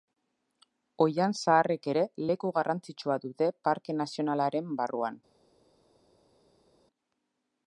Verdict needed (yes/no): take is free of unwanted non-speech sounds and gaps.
yes